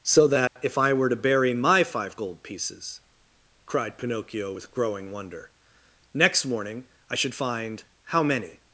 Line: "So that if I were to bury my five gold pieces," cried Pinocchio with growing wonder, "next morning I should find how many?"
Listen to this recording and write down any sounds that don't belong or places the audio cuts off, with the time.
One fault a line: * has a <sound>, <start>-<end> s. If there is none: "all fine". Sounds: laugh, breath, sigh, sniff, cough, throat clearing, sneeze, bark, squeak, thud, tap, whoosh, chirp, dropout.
* has a dropout, 0.5-0.6 s